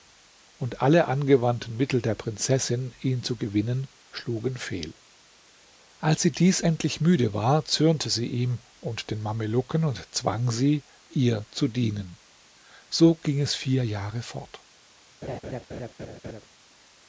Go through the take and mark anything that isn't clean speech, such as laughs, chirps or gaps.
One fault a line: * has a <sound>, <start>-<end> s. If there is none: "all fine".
* has a laugh, 15.2-16.5 s